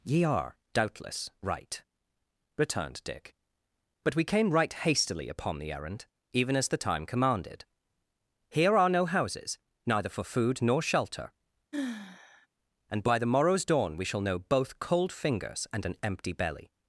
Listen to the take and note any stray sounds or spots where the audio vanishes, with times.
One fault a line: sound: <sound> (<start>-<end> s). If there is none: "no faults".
sound: sigh (11.7-12.5 s)